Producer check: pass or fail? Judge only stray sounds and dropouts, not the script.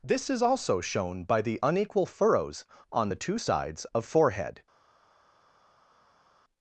pass